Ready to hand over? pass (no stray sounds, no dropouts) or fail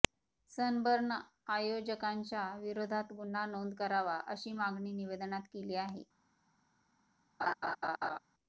fail